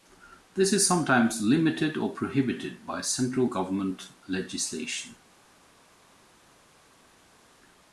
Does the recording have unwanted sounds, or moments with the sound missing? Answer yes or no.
no